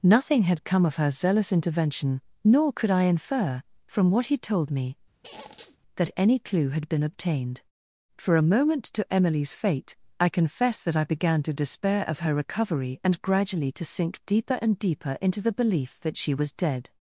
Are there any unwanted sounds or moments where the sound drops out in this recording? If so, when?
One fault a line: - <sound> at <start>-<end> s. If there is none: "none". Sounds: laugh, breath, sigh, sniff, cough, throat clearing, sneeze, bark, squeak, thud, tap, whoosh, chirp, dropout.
- squeak at 5.2-5.8 s